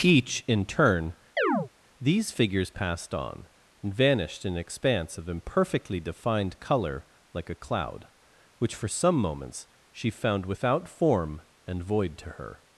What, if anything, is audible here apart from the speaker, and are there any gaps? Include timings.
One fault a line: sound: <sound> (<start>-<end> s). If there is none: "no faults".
sound: chirp (1.4-1.7 s)